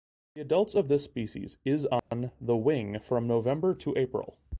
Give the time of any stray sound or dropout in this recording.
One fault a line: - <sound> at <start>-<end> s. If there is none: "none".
- dropout at 2.0-2.1 s